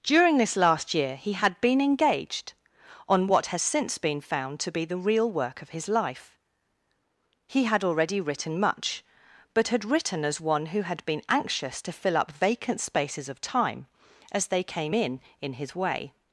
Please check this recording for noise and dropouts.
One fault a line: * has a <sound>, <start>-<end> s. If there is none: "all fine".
all fine